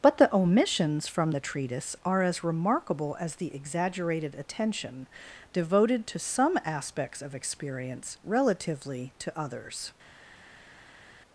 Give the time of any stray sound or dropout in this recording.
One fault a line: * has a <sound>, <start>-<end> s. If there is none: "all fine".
all fine